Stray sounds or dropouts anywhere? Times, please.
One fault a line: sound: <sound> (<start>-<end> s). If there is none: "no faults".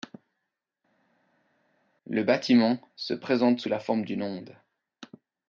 no faults